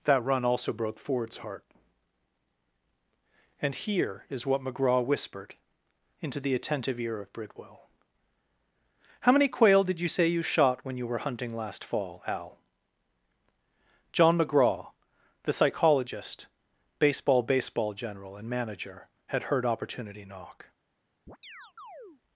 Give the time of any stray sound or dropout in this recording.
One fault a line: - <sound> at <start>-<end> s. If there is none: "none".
- chirp at 21.3-22.2 s